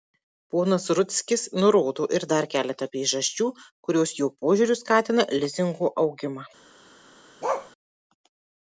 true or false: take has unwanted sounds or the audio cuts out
true